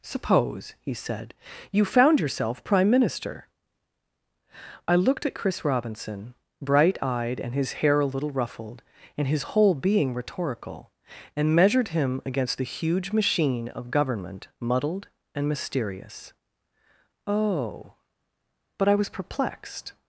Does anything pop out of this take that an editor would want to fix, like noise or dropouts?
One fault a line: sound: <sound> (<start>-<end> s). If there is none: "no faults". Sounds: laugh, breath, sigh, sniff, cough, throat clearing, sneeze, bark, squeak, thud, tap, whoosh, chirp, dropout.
no faults